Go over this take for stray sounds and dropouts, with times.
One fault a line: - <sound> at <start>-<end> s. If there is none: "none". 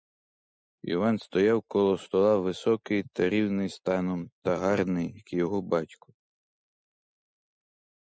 none